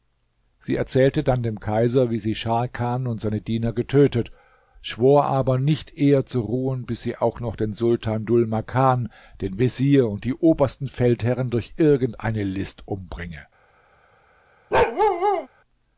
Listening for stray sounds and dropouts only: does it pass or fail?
fail